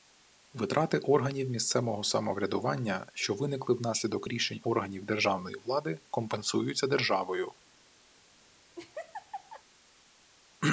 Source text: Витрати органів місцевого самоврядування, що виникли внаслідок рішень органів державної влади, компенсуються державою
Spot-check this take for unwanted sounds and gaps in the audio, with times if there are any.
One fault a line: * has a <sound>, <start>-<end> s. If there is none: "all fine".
* has a laugh, 8.8-9.6 s